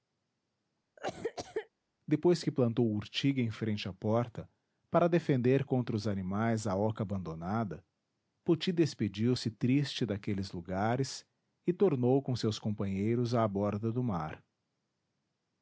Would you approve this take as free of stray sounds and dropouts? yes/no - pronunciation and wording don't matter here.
no